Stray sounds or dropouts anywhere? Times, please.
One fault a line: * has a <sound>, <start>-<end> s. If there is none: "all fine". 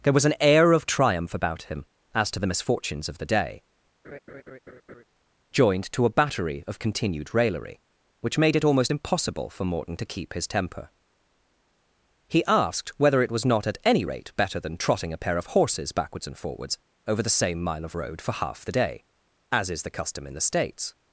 * has a laugh, 4.0-5.0 s